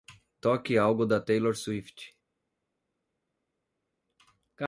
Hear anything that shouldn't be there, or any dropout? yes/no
no